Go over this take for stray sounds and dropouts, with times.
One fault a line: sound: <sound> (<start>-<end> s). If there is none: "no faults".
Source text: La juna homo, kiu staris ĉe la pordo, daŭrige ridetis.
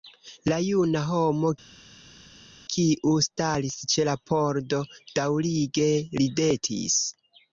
no faults